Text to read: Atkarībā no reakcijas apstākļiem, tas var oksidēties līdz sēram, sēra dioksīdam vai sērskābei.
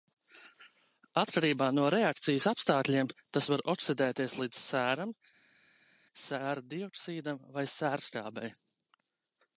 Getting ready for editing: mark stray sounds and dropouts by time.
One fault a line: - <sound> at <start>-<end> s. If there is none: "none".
none